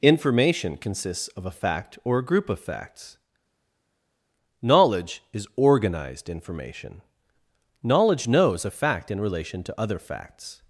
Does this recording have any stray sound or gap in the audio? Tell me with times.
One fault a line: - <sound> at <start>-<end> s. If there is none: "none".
none